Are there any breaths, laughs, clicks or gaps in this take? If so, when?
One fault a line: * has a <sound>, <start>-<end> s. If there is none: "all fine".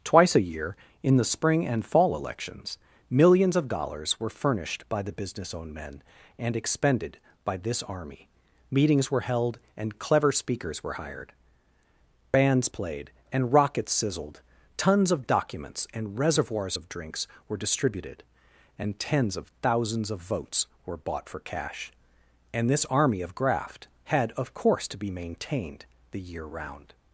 all fine